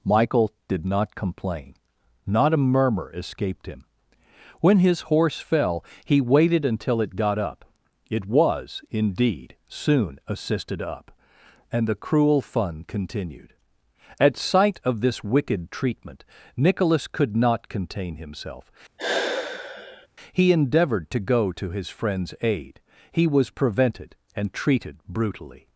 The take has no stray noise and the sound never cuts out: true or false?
false